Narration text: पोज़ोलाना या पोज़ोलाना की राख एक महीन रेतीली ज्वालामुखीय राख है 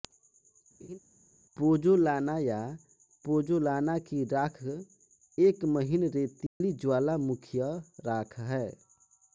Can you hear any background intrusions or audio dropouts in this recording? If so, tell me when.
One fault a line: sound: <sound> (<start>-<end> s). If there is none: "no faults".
sound: laugh (0.8-1.0 s)
sound: dropout (6.5-6.6 s)